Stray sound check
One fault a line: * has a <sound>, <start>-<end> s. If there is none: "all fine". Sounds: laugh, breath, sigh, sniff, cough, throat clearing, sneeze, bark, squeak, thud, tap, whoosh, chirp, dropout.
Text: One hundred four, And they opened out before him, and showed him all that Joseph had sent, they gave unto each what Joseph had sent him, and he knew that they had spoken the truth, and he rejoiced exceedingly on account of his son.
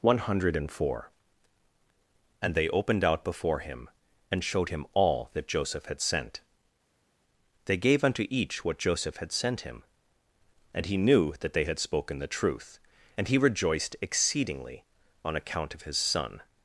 all fine